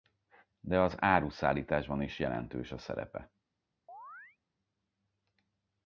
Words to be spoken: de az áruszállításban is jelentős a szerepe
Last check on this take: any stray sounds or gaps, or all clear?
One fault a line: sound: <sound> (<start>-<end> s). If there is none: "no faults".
sound: chirp (3.9-4.4 s)